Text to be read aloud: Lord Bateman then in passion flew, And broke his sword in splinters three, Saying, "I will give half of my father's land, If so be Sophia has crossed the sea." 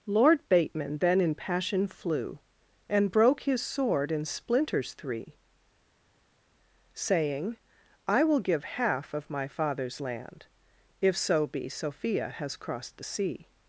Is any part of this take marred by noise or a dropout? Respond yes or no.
no